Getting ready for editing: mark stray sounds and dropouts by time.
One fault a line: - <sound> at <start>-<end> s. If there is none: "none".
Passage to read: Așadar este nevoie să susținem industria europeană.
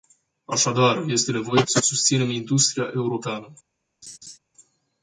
- laugh at 4.0-4.4 s